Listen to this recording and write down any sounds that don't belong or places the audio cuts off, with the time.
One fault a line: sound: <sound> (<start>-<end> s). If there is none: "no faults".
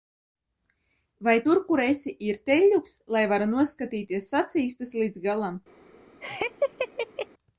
sound: laugh (6.2-7.3 s)